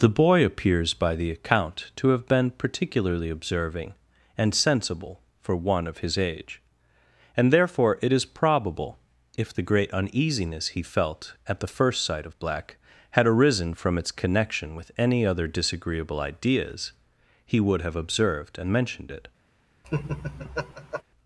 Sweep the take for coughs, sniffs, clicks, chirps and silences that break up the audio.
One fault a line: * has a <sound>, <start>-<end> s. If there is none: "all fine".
* has a laugh, 19.8-21.0 s